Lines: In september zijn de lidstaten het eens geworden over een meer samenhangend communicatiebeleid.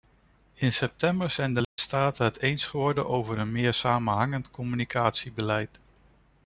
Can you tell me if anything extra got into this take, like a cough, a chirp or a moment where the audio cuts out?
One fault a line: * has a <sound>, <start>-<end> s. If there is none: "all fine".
* has a dropout, 1.6-1.8 s